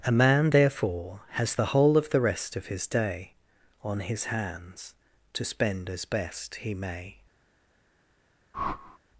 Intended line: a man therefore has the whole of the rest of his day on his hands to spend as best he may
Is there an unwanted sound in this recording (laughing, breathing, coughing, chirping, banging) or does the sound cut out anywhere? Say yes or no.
yes